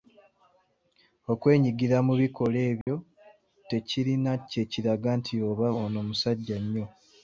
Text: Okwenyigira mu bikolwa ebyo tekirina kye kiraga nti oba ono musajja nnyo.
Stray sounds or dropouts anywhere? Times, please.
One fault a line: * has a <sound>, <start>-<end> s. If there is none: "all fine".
* has a dropout, 2.8-2.9 s